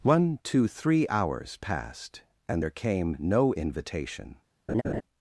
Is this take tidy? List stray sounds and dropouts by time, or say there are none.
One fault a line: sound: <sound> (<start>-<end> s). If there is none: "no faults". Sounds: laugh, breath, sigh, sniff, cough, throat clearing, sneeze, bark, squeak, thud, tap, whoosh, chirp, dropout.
sound: laugh (4.7-5.0 s)